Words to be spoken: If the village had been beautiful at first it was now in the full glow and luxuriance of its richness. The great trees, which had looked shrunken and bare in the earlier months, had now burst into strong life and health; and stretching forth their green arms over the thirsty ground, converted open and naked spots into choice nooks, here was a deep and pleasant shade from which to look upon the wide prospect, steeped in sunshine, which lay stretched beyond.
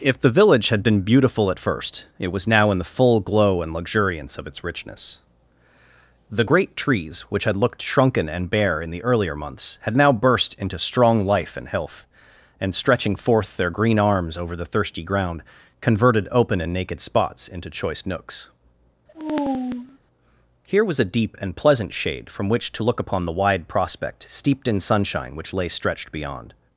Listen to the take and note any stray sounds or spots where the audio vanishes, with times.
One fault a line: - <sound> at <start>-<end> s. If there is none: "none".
- sigh at 19.1-20.0 s